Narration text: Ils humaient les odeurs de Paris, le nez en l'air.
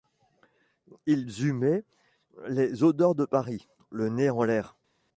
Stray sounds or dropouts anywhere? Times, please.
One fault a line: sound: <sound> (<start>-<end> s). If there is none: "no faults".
no faults